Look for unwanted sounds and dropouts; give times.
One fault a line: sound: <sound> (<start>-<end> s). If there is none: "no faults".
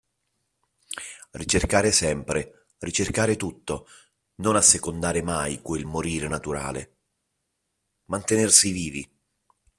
no faults